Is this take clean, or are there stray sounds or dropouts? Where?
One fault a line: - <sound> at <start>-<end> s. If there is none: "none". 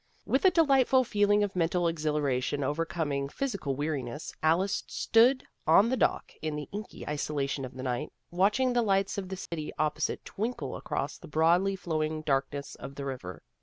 - dropout at 9.5-9.5 s